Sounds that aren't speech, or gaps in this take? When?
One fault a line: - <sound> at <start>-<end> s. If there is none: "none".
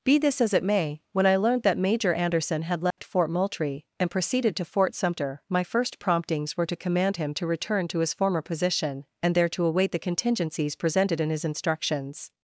- dropout at 2.9-3.0 s